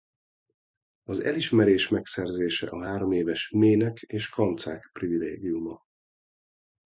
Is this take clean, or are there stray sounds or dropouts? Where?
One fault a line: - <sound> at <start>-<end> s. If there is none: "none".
none